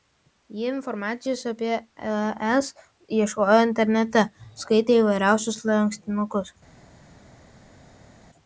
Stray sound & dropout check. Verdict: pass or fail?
pass